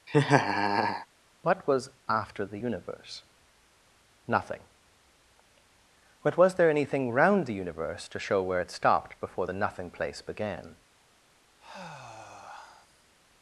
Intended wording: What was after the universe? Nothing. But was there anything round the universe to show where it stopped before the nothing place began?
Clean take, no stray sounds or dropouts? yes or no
no